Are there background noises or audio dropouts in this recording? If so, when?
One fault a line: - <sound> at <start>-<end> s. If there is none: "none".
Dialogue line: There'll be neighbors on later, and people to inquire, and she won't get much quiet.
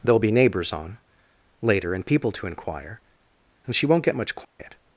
- dropout at 4.4-4.6 s